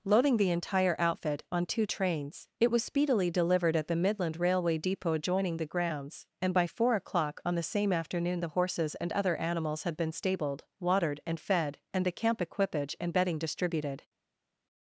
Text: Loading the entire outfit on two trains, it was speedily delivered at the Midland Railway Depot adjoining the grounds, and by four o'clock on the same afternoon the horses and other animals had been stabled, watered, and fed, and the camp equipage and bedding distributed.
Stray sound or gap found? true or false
false